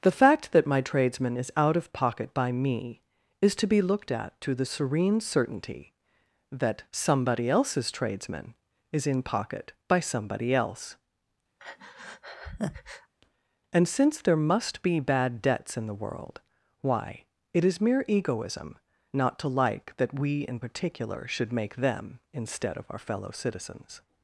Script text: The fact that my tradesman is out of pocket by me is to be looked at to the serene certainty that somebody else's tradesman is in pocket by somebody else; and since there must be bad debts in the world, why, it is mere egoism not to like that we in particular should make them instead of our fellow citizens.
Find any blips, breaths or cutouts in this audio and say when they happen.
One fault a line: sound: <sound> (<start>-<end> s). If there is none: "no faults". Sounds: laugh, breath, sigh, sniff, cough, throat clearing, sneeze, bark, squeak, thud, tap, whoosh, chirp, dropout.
sound: breath (11.6-13.1 s)